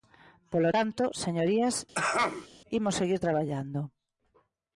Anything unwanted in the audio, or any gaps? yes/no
yes